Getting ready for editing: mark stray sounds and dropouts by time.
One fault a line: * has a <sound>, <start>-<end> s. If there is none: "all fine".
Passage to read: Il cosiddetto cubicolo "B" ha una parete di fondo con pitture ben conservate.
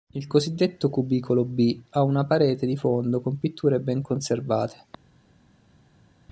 all fine